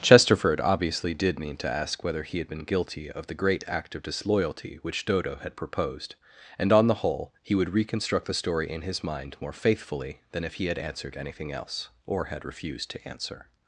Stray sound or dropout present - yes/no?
no